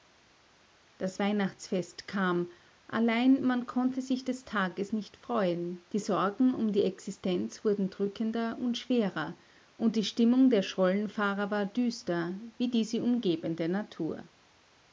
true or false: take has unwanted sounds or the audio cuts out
false